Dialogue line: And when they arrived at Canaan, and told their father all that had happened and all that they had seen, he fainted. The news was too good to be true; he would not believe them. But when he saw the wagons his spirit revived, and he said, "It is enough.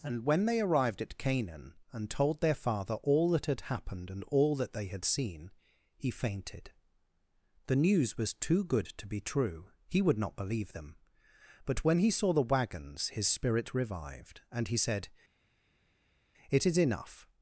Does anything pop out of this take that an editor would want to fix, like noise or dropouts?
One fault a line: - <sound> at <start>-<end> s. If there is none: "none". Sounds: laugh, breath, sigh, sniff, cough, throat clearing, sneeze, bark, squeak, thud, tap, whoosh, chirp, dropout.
none